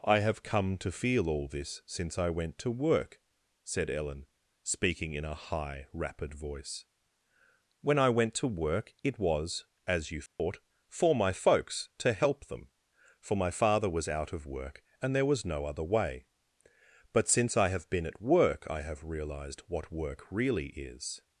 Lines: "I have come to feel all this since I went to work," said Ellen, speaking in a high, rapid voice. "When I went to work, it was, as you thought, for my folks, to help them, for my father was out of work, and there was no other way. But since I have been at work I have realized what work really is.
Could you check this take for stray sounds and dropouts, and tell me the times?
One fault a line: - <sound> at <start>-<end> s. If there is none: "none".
- dropout at 10.3-10.4 s